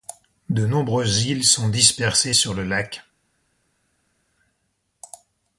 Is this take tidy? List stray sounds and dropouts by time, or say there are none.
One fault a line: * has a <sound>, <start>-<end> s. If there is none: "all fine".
all fine